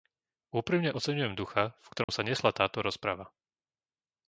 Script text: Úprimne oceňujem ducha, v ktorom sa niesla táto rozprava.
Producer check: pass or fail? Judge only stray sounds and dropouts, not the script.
fail